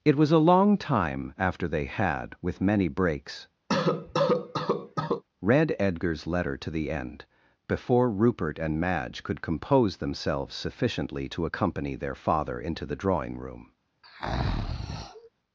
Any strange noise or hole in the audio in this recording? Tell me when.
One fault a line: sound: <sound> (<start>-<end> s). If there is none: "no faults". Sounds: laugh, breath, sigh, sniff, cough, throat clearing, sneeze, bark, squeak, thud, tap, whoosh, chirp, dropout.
sound: cough (3.7-5.2 s)
sound: breath (14.0-15.3 s)